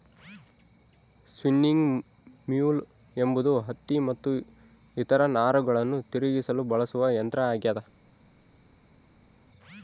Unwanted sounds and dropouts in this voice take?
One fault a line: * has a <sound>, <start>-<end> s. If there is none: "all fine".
all fine